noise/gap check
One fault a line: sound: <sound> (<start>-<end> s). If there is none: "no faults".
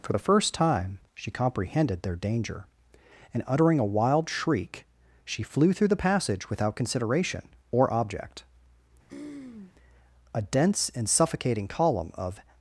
sound: throat clearing (9.1-9.7 s)